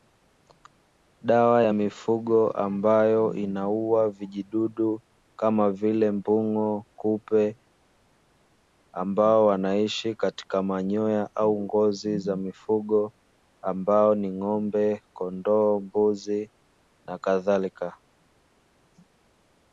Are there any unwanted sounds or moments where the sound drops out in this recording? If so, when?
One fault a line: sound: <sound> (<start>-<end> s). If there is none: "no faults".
no faults